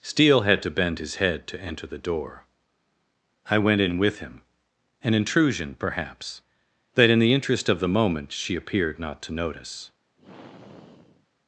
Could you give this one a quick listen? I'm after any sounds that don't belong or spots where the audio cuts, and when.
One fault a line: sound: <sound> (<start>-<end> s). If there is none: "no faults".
sound: sigh (10.2-11.3 s)